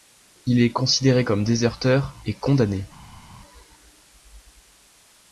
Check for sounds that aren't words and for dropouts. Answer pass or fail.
pass